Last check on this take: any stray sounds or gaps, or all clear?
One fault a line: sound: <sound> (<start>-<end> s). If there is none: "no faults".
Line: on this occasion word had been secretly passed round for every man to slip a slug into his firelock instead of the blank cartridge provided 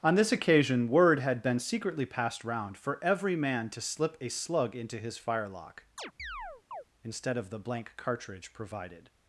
sound: chirp (6.0-6.8 s)